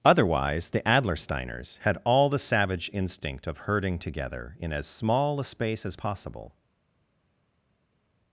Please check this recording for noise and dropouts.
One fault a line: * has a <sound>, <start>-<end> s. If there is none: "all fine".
all fine